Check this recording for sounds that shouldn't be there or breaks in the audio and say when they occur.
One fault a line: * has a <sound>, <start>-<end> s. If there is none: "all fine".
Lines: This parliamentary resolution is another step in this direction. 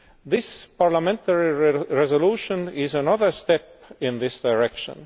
all fine